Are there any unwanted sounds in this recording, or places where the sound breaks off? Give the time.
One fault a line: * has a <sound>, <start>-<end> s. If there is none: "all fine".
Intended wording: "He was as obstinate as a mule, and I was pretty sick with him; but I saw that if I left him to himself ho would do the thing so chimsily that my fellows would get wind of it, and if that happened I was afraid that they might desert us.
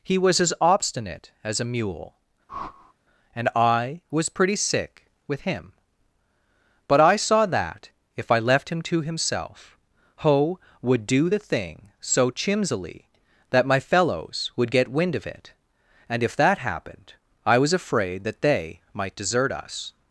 * has a whoosh, 2.5-2.9 s